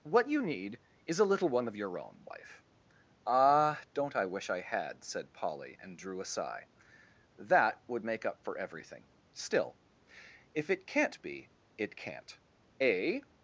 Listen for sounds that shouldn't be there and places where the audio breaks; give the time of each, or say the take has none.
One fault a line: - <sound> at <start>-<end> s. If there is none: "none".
none